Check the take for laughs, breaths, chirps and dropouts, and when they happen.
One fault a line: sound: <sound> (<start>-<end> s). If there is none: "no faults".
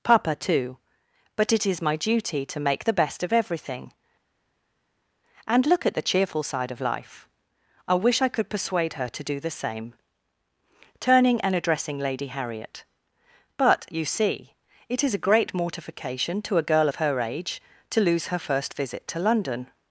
no faults